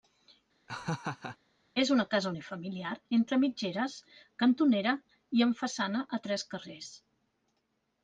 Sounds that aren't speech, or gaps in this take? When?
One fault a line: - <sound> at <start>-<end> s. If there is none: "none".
- laugh at 0.7-1.4 s